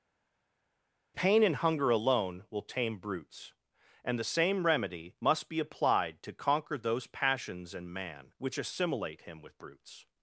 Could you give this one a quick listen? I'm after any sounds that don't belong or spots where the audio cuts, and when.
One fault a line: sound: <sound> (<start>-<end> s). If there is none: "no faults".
no faults